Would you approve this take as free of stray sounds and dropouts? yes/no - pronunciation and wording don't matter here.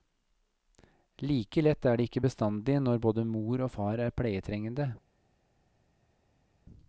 yes